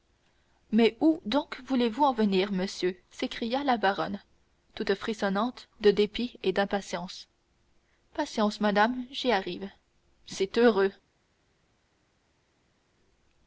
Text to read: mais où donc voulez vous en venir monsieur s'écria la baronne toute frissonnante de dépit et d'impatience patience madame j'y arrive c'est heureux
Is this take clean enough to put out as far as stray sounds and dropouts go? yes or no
yes